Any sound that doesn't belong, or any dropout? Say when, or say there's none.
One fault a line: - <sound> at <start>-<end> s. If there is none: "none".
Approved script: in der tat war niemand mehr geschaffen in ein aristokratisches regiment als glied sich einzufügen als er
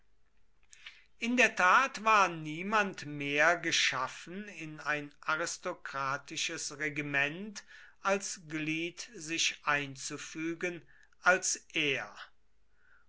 none